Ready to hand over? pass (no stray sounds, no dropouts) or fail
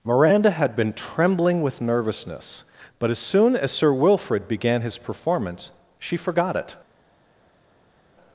pass